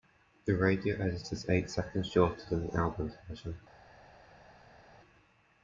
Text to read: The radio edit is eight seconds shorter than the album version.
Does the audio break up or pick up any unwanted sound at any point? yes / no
no